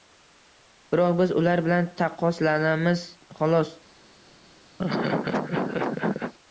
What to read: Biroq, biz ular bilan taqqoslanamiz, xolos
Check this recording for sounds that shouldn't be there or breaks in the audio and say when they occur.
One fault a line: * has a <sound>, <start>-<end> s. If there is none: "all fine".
* has a laugh, 4.8-6.3 s